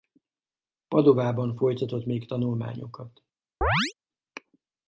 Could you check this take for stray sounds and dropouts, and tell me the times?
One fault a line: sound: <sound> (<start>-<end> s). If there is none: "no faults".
sound: chirp (3.6-3.9 s)